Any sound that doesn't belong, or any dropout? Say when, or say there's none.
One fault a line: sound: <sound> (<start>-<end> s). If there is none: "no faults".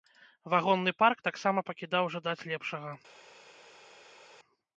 no faults